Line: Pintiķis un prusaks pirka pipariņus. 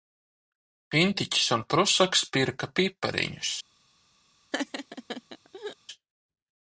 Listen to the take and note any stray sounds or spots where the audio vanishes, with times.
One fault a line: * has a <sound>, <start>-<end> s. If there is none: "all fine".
* has a laugh, 4.5-5.8 s